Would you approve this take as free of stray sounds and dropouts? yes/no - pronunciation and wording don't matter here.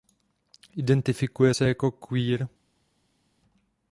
yes